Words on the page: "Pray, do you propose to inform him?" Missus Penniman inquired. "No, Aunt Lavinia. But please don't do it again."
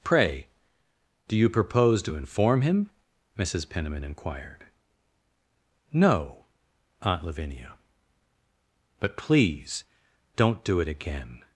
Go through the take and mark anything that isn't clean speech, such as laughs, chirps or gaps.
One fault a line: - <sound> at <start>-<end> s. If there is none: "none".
none